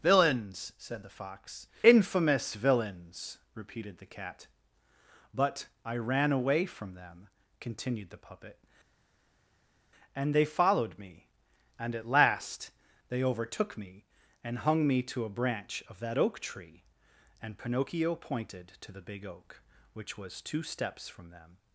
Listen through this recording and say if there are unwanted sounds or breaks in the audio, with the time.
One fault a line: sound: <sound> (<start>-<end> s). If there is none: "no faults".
no faults